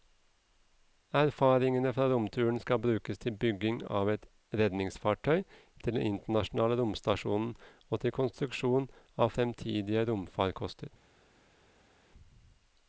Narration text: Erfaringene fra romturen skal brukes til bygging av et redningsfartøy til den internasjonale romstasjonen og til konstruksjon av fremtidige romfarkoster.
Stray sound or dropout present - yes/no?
no